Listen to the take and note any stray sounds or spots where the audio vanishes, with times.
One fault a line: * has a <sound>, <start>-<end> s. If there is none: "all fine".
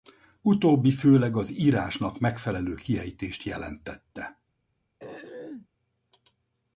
* has a throat clearing, 5.0-5.7 s